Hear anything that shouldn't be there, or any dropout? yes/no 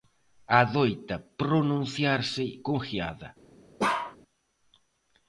yes